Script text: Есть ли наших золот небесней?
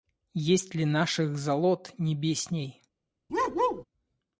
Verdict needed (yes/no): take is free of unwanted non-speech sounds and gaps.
no